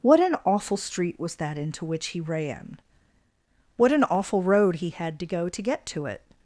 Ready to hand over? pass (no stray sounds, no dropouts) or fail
pass